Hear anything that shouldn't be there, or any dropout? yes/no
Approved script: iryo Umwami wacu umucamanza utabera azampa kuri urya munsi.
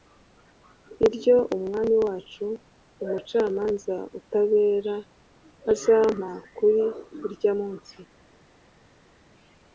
no